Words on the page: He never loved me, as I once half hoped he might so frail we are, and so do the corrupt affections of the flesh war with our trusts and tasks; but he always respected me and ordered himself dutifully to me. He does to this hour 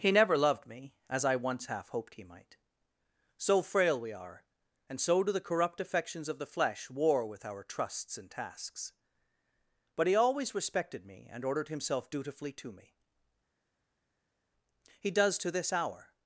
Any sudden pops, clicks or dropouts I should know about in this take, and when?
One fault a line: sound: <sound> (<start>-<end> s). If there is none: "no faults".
no faults